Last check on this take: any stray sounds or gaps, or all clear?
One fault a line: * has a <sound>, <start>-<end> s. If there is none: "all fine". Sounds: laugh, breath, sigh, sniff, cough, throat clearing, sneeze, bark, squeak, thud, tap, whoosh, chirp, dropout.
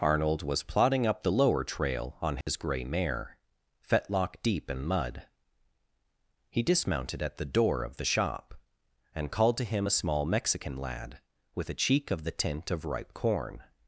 * has a dropout, 2.4-2.5 s